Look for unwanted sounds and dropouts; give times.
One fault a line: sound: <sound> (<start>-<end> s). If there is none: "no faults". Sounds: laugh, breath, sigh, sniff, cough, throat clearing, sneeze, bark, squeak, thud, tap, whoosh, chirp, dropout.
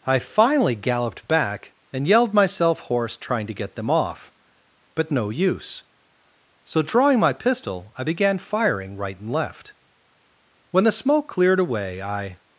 no faults